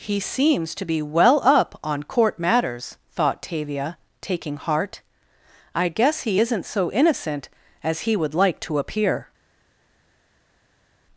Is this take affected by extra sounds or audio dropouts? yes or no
no